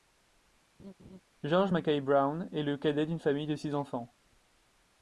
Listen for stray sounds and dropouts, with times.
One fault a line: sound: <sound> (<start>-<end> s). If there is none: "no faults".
sound: laugh (0.8-1.2 s)